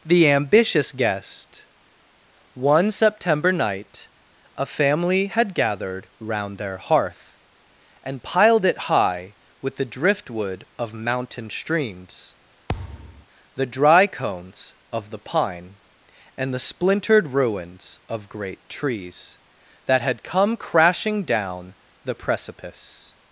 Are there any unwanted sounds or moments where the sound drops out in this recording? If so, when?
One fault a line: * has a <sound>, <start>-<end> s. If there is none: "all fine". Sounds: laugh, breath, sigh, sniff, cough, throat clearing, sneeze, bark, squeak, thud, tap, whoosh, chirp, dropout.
* has a thud, 12.7-13.3 s